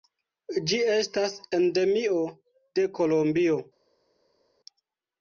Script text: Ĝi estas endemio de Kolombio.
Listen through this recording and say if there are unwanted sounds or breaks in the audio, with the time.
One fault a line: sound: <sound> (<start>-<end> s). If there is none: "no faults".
no faults